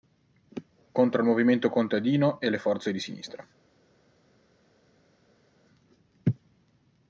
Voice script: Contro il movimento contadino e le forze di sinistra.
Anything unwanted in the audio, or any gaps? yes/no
no